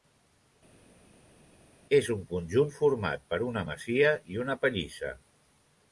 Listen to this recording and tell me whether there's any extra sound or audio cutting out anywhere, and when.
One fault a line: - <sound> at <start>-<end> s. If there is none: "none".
none